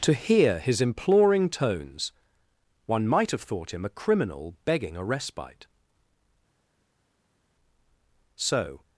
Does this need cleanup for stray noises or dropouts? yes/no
no